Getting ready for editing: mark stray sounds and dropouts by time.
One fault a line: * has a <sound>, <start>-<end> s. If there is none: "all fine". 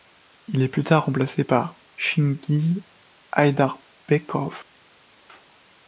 all fine